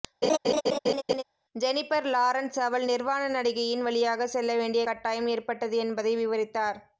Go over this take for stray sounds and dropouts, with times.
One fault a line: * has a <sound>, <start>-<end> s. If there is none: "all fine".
* has a laugh, 0.2-1.2 s